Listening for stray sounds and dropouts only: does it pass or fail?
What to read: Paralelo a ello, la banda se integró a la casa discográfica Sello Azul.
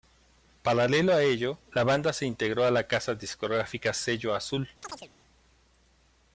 fail